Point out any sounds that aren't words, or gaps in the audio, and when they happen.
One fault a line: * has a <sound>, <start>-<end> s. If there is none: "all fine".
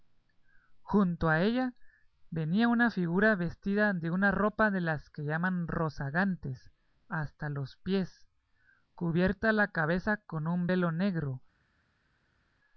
all fine